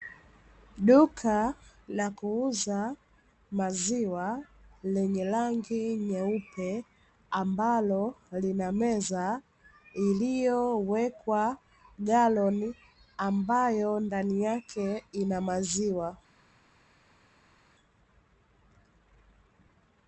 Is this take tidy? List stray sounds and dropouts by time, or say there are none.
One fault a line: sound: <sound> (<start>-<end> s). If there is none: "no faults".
no faults